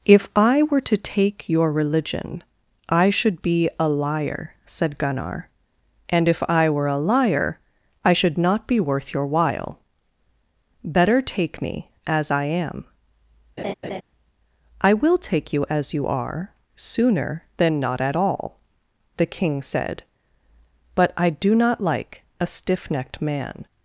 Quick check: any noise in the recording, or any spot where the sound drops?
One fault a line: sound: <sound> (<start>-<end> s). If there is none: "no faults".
sound: laugh (13.6-14.0 s)